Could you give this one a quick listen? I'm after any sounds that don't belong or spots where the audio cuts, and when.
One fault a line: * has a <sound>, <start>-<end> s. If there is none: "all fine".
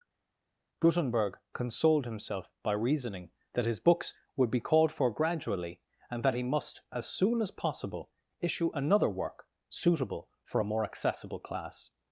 all fine